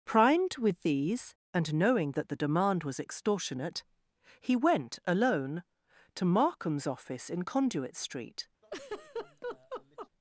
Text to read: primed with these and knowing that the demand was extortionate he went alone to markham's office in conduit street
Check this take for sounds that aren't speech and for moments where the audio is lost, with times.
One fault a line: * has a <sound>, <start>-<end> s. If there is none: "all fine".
* has a laugh, 8.6-10.1 s